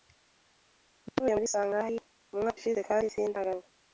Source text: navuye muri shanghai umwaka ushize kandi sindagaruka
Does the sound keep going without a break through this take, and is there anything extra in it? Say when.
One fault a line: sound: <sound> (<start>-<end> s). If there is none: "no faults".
no faults